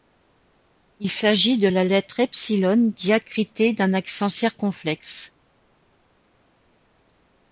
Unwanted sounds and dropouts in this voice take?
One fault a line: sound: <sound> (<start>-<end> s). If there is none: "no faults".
no faults